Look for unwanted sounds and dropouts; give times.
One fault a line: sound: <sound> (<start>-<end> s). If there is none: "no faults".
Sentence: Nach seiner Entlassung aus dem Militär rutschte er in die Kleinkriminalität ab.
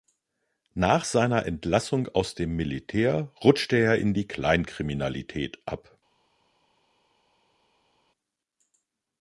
no faults